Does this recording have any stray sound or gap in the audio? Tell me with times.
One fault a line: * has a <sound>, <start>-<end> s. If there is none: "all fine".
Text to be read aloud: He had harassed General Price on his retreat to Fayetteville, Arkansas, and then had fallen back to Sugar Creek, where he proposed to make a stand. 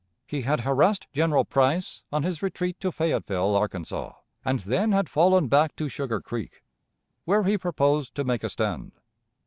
all fine